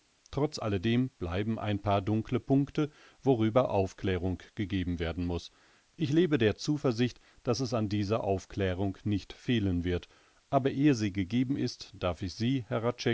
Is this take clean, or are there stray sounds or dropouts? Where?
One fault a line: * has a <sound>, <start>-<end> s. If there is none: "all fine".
all fine